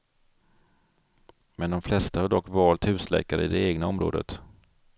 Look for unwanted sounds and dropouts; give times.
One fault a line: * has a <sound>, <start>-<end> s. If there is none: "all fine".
all fine